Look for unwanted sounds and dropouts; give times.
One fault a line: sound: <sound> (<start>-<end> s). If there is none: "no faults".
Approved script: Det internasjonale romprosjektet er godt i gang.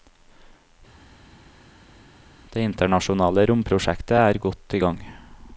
no faults